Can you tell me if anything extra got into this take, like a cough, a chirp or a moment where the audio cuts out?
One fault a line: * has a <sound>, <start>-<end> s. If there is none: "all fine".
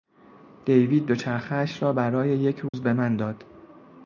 * has a dropout, 2.7-2.7 s